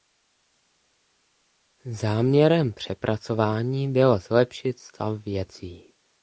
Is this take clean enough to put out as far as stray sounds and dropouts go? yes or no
yes